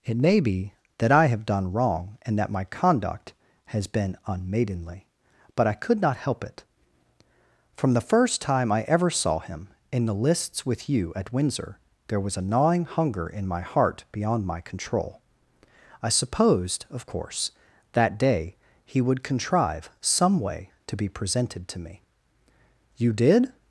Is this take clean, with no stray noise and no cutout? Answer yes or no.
yes